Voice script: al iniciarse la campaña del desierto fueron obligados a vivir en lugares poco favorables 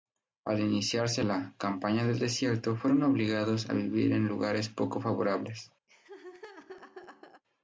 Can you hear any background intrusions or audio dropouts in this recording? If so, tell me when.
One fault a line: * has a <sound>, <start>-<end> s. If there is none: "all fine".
* has a laugh, 5.9-7.4 s